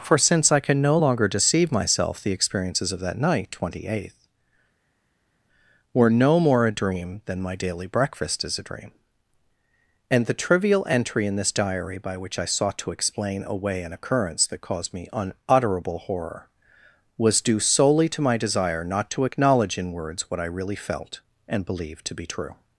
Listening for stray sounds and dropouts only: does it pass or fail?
pass